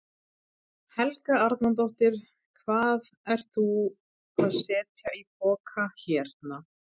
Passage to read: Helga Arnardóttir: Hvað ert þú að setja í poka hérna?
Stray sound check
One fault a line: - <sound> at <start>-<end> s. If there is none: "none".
none